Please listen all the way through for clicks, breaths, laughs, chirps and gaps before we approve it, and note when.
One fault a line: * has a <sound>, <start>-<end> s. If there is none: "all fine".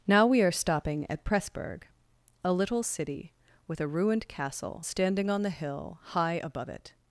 all fine